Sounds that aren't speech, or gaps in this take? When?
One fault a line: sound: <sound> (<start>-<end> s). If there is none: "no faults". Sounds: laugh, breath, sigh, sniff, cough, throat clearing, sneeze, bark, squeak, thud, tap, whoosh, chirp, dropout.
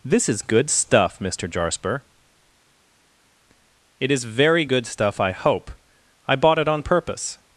no faults